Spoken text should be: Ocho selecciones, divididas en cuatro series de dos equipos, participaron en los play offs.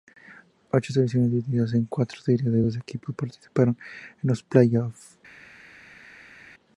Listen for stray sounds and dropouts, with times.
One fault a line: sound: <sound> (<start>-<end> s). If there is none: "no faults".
no faults